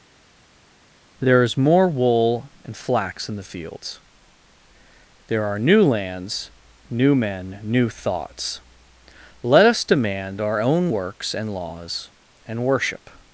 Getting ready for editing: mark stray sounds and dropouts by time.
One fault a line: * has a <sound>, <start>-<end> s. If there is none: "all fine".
all fine